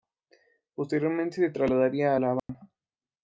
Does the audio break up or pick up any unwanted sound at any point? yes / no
yes